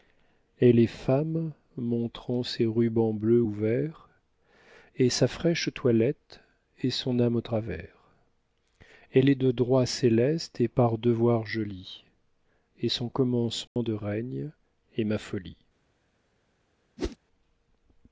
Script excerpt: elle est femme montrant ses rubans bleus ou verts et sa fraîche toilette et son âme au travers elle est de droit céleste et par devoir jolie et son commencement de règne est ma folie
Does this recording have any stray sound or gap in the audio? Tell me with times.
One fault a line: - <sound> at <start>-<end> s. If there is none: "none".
- dropout at 13.7-13.8 s
- whoosh at 17.0-17.2 s